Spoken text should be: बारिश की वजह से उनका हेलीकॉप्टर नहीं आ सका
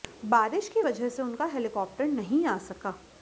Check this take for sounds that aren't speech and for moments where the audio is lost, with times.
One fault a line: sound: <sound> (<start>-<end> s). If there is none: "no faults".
no faults